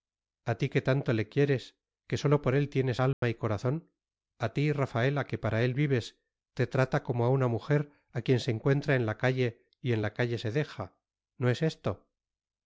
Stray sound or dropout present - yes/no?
yes